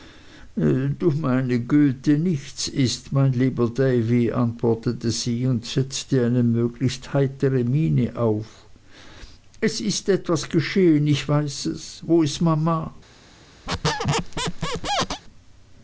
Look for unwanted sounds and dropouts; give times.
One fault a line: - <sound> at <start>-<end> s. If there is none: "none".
- squeak at 13.7-15.2 s